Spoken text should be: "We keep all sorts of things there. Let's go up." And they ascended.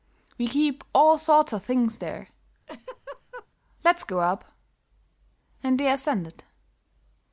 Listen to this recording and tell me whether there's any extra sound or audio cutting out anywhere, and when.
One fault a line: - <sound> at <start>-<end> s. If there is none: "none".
- laugh at 2.7-3.5 s